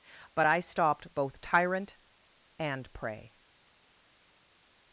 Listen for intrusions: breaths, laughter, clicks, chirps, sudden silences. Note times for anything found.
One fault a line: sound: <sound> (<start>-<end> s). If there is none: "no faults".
no faults